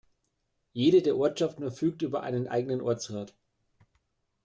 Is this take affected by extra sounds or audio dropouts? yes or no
no